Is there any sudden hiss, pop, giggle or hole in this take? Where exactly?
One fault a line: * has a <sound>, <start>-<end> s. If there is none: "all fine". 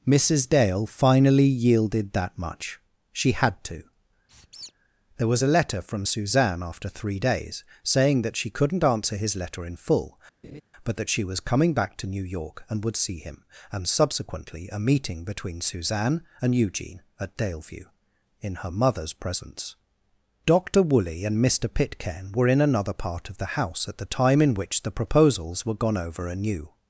* has a squeak, 4.3-4.7 s
* has a laugh, 10.4-10.6 s